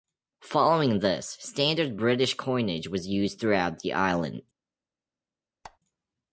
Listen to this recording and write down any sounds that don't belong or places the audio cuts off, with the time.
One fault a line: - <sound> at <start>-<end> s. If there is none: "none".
- squeak at 5.6-5.8 s